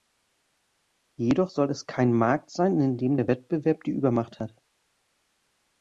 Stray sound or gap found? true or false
false